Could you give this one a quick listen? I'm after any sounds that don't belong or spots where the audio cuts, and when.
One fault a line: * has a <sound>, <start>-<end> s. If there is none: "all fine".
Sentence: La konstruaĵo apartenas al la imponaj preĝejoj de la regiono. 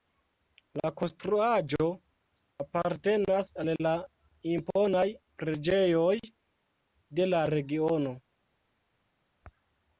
all fine